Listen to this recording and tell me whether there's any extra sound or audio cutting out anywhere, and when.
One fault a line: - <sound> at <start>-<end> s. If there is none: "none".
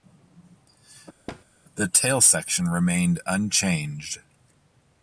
- thud at 1.3-1.4 s